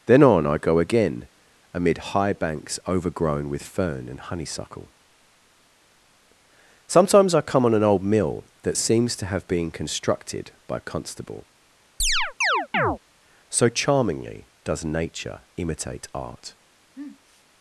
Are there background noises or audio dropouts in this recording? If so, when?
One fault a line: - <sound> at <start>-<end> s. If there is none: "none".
- chirp at 12.0-13.0 s
- sniff at 16.9-17.4 s